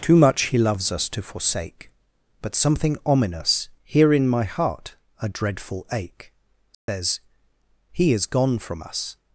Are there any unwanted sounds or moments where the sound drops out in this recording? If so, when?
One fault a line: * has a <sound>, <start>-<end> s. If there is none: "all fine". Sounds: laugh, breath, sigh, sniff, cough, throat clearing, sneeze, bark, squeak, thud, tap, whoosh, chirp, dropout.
* has a dropout, 6.7-6.9 s